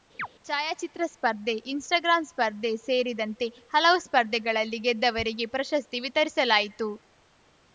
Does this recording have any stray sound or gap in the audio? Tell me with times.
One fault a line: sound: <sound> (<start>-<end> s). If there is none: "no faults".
sound: chirp (0.2-0.3 s)